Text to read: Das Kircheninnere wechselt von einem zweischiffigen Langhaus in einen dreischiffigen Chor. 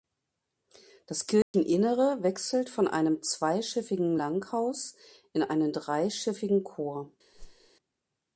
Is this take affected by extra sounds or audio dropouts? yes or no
yes